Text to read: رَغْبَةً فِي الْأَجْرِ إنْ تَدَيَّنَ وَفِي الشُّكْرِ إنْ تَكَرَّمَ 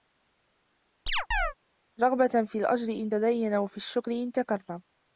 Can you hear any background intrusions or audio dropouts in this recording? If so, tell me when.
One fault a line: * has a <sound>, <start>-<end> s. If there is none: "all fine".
* has a chirp, 1.1-1.5 s